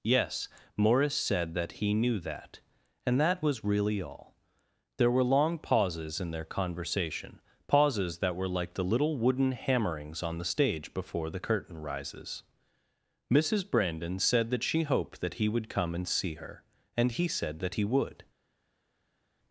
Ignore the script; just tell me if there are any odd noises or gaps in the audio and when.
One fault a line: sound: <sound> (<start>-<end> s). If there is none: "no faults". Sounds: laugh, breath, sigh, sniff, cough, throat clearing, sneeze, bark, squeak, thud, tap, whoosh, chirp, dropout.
no faults